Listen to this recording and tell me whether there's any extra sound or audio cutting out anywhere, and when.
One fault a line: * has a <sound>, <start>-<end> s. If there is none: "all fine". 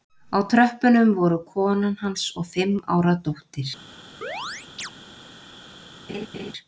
* has a chirp, 4.2-4.9 s
* has a laugh, 6.1-6.5 s